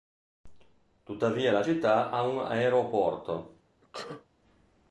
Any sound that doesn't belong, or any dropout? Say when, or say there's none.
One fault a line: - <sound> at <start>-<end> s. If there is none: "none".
- sneeze at 3.8-4.3 s